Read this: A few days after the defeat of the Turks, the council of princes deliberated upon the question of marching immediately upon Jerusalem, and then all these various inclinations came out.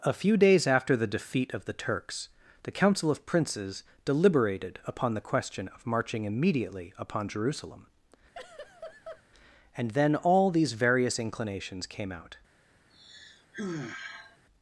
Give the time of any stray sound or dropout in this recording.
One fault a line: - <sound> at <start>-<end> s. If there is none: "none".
- laugh at 8.3-9.2 s
- sigh at 12.9-14.4 s